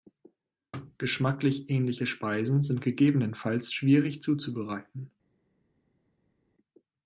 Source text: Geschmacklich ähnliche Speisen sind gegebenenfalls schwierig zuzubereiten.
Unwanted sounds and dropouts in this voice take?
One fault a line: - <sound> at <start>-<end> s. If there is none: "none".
none